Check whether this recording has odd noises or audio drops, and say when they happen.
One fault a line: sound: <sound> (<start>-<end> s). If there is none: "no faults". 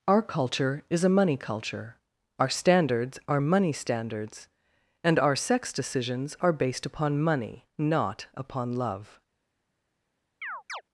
sound: chirp (10.4-10.8 s)